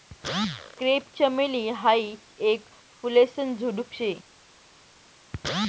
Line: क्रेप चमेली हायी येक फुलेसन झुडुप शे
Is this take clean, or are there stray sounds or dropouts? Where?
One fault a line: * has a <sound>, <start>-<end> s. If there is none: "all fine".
all fine